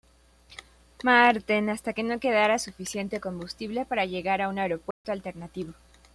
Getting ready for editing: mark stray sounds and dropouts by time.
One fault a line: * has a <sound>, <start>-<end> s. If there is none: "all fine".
* has a dropout, 4.9-5.0 s